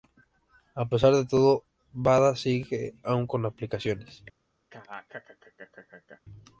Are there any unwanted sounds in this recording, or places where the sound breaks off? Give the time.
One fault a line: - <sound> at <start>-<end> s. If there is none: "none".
- laugh at 4.7-6.2 s